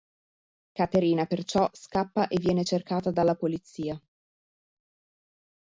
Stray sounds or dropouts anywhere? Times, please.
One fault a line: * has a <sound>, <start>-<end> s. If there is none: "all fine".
all fine